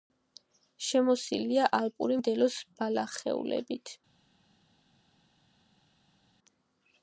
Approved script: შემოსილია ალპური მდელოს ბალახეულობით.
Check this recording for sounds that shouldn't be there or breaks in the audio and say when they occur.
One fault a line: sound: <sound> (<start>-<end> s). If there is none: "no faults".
no faults